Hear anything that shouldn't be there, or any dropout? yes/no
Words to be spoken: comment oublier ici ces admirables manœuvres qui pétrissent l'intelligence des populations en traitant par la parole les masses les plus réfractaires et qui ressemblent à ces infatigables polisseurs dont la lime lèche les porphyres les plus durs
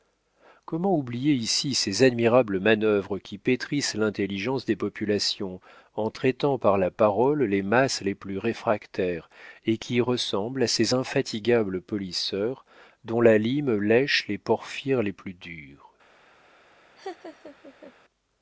yes